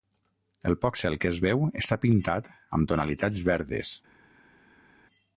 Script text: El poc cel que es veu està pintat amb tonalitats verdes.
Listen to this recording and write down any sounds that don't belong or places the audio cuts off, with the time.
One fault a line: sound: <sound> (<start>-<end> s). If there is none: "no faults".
no faults